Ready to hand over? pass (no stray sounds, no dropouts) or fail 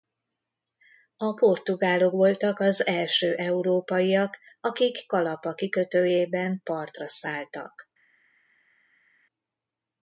pass